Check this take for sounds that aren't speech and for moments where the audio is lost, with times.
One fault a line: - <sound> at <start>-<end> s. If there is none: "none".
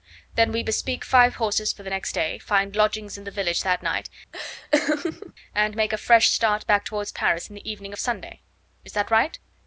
- laugh at 4.3-5.3 s